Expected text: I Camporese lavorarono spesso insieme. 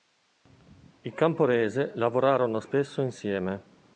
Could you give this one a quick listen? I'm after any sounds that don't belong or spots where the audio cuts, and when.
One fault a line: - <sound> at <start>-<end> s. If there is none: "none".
none